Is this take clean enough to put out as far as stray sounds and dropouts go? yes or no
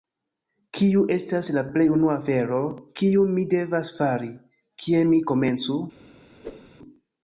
no